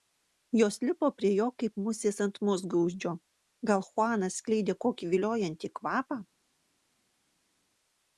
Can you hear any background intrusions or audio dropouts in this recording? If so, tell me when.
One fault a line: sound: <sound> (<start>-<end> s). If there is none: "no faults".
no faults